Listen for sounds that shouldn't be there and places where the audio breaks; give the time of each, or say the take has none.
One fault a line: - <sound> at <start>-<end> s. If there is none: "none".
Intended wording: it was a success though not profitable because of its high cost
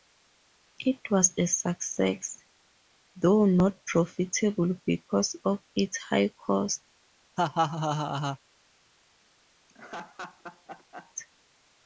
- laugh at 7.4-8.4 s
- laugh at 9.7-11.1 s